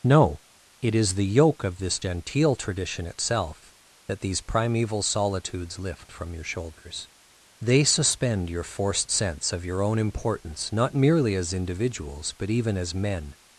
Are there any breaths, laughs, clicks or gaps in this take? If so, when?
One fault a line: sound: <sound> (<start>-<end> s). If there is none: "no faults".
no faults